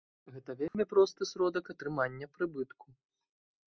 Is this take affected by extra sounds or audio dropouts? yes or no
yes